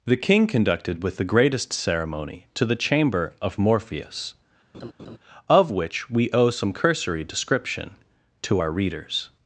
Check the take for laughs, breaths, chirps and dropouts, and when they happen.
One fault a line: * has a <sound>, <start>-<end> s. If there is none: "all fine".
* has a laugh, 4.7-5.2 s